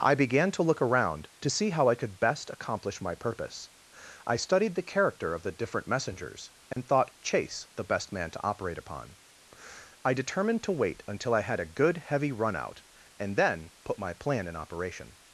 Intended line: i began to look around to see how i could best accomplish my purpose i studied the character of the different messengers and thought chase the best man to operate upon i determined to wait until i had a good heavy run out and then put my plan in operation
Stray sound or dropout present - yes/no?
yes